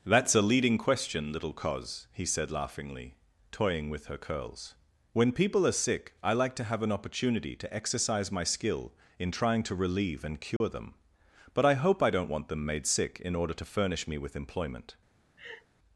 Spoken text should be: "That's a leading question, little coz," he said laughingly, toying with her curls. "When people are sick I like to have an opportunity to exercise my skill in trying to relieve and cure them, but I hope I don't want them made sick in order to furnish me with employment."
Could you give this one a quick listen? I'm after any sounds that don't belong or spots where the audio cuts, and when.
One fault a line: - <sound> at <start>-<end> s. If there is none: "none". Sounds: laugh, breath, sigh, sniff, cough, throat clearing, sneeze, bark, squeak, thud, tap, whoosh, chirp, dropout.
- dropout at 10.6-10.6 s
- laugh at 15.4-15.7 s